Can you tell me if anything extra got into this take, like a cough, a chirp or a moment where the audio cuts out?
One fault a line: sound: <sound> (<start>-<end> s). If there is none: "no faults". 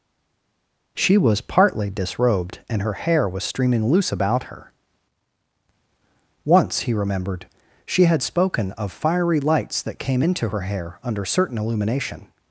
no faults